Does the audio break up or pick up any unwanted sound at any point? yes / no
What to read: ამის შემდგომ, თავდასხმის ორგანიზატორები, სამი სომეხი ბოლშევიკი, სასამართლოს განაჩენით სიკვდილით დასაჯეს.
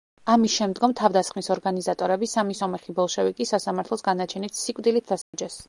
yes